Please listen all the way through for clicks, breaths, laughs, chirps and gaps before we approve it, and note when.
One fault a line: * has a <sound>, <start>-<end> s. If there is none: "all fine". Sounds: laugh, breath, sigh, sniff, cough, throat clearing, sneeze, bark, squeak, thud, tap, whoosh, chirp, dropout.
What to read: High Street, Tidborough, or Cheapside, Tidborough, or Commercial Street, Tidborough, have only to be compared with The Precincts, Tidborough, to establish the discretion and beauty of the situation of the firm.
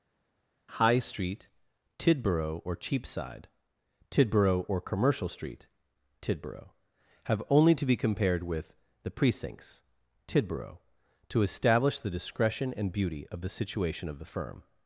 all fine